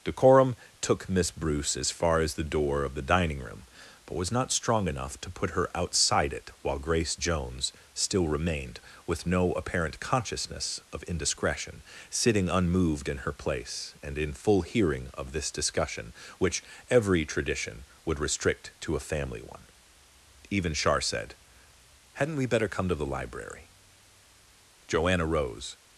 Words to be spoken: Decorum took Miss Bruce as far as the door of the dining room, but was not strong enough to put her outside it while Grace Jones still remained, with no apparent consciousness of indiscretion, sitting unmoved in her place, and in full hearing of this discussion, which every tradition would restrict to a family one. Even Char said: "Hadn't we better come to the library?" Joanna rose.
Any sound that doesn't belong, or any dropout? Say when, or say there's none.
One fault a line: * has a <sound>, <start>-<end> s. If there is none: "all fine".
all fine